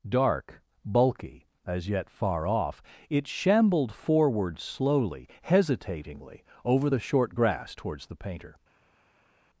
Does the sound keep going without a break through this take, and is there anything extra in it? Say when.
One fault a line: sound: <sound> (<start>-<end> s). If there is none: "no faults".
no faults